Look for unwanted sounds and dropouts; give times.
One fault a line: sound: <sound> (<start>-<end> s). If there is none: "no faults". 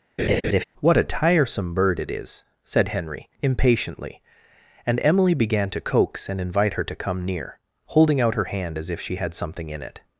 sound: laugh (0.2-0.6 s)